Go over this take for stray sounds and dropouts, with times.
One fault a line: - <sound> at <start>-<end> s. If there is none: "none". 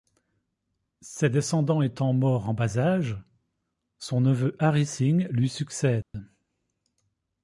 - dropout at 6.0-6.1 s